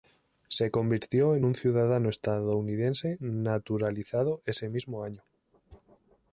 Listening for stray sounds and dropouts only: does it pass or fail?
pass